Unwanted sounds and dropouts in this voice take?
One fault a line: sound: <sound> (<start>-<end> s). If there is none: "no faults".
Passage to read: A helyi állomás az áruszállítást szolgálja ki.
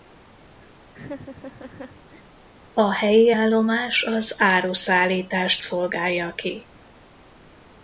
sound: laugh (0.9-2.2 s)